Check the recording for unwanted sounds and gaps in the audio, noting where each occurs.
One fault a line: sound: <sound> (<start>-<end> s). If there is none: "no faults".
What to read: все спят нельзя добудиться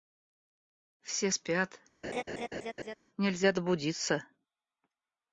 sound: laugh (2.0-3.0 s)